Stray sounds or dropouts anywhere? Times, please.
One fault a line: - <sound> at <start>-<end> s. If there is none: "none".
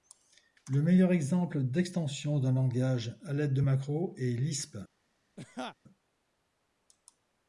- laugh at 5.4-5.8 s